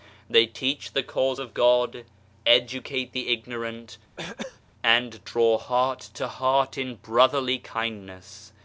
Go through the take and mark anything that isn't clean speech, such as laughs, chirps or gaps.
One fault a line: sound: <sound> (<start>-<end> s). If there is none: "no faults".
sound: throat clearing (4.2-4.6 s)